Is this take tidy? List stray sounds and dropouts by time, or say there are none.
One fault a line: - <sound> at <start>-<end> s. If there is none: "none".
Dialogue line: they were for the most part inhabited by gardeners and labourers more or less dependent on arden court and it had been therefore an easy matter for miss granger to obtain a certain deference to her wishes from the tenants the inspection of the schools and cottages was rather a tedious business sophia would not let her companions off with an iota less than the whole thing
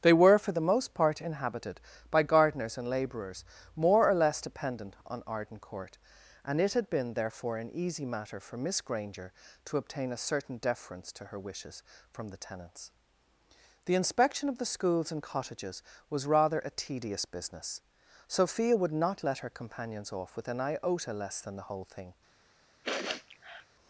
- sniff at 22.8-23.7 s